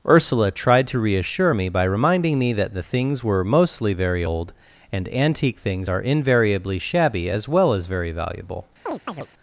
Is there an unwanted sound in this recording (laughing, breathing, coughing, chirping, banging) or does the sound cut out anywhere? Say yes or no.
yes